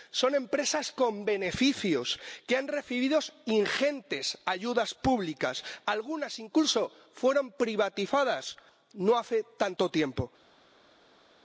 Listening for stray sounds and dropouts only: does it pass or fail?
pass